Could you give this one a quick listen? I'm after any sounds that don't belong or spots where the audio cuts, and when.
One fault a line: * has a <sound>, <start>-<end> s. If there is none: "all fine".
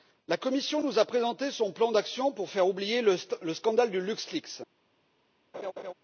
* has a laugh, 5.5-5.9 s